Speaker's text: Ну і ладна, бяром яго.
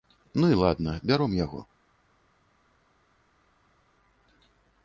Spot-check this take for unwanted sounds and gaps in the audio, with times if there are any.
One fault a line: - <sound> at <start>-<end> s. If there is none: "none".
none